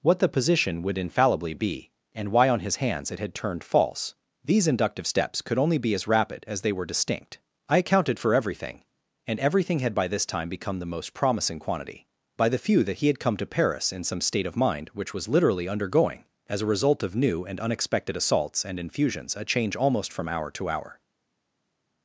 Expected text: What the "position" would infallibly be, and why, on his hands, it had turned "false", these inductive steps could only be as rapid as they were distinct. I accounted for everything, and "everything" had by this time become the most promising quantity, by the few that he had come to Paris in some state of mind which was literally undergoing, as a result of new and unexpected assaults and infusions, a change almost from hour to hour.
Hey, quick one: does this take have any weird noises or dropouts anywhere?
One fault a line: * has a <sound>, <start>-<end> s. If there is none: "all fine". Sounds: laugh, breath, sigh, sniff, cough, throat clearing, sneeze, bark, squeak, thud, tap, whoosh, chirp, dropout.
all fine